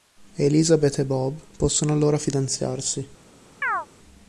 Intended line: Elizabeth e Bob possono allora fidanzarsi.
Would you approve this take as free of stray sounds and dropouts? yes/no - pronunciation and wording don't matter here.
no